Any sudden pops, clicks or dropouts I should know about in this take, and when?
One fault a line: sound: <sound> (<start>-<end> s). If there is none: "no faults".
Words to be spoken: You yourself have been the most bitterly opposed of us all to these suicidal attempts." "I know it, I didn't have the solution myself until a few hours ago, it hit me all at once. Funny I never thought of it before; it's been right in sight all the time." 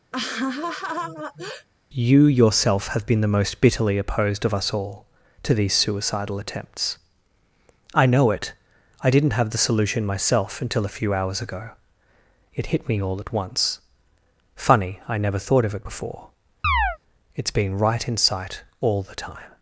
sound: laugh (0.1-1.7 s)
sound: chirp (16.6-17.0 s)